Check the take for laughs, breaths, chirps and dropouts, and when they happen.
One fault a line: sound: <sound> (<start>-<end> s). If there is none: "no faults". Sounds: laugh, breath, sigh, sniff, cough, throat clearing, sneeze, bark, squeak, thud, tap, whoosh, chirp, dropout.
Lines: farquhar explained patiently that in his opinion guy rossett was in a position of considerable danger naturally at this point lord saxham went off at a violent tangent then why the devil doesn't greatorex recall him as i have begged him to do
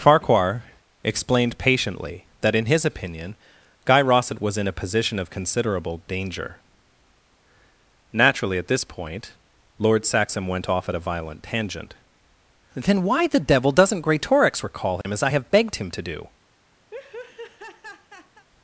sound: dropout (15.0-15.0 s)
sound: laugh (16.9-18.5 s)